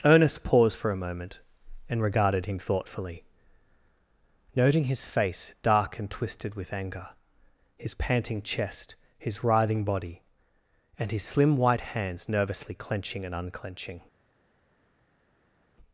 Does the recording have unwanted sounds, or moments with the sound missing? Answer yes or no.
no